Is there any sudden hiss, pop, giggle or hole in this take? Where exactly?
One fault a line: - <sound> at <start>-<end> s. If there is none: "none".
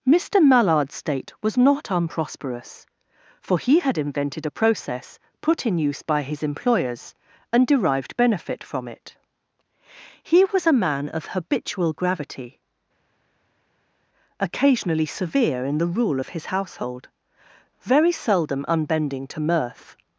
none